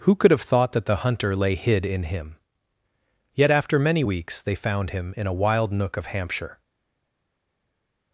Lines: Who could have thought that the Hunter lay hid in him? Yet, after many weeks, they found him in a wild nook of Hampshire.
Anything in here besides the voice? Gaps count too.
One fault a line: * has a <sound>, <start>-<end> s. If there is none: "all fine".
all fine